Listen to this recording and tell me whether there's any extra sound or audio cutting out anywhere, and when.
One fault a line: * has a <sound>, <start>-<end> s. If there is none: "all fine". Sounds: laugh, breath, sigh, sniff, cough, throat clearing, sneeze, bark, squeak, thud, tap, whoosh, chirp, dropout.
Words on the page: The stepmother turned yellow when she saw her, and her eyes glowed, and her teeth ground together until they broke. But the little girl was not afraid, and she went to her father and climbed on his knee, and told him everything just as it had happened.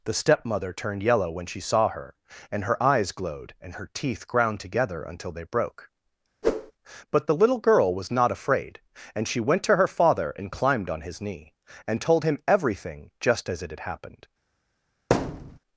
* has a whoosh, 6.4-6.7 s
* has a thud, 15.1-15.6 s